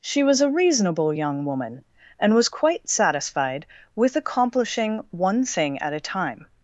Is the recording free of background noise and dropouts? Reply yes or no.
yes